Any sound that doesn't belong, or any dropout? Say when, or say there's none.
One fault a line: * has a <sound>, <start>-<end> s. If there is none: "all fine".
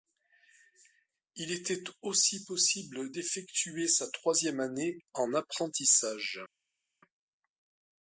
all fine